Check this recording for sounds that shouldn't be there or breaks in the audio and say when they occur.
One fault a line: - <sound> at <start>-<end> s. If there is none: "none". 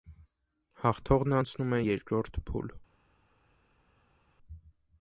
none